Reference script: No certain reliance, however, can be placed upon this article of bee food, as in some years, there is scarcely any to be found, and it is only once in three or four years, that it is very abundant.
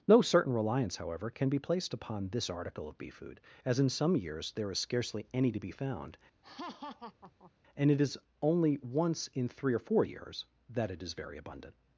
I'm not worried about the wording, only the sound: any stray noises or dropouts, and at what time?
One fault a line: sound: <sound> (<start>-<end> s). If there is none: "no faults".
sound: laugh (6.4-7.5 s)